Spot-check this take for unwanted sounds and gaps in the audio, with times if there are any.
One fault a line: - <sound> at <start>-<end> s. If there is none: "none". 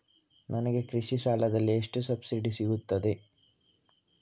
none